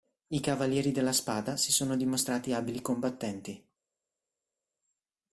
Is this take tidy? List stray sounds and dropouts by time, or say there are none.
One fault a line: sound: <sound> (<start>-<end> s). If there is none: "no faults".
no faults